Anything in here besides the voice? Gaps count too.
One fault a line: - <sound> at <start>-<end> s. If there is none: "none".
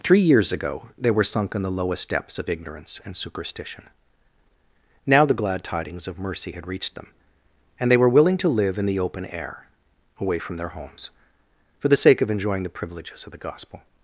none